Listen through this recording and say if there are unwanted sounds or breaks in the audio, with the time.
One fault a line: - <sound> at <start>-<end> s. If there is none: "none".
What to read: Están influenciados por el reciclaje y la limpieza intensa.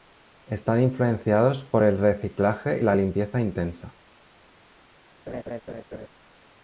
- laugh at 5.3-6.1 s